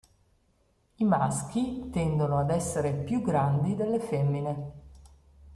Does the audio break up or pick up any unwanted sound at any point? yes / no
no